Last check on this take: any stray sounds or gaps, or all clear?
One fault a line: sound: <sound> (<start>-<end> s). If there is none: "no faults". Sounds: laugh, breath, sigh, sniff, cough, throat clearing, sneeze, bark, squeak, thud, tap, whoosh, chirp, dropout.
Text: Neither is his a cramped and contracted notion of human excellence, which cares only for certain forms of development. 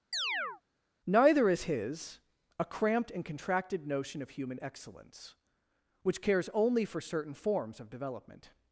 sound: chirp (0.1-0.6 s)